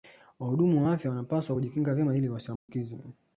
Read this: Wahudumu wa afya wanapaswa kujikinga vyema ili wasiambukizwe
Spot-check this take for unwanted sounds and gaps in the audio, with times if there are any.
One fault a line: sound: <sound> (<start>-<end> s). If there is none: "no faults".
sound: dropout (2.6-2.7 s)